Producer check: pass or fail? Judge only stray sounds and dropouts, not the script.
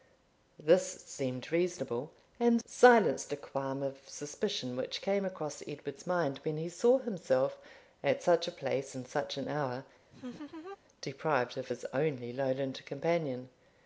fail